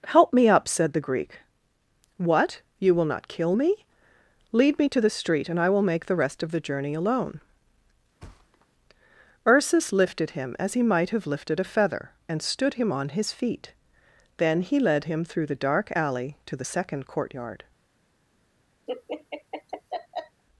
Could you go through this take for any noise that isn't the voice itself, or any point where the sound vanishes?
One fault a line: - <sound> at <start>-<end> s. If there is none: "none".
- thud at 8.2-8.7 s
- laugh at 18.9-20.4 s